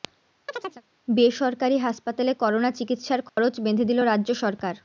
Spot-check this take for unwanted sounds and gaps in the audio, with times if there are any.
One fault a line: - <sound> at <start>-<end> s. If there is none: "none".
- chirp at 0.5-0.8 s
- dropout at 3.3-3.4 s